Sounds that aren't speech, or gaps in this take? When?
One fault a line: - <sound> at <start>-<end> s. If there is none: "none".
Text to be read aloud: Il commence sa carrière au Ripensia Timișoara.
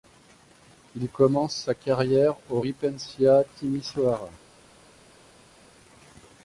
none